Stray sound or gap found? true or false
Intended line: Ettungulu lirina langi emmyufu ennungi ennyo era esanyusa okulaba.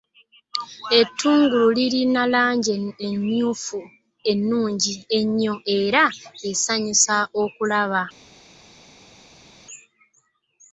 false